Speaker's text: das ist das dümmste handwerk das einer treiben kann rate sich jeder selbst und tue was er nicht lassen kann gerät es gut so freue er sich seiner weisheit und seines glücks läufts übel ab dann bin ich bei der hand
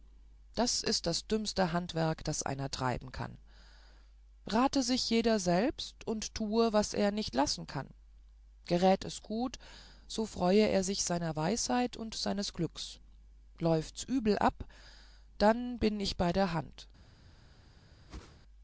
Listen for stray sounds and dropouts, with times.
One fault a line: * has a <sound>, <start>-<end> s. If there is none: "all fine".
* has a whoosh, 18.1-18.4 s